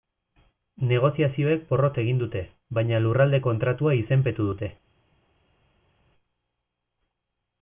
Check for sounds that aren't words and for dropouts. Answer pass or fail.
pass